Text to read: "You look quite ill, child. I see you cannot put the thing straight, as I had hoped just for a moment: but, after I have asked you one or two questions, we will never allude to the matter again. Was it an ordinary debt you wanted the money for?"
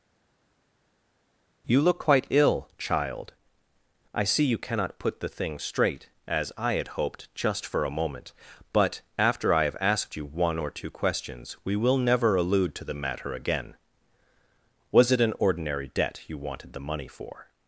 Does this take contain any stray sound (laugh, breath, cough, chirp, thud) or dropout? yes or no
no